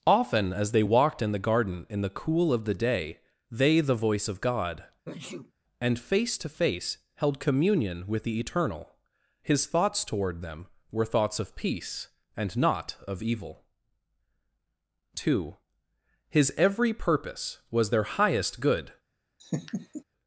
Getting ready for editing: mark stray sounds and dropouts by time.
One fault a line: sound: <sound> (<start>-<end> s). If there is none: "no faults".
sound: sneeze (5.1-5.5 s)
sound: laugh (19.4-20.0 s)